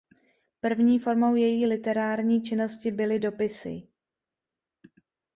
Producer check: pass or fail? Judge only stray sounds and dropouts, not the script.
pass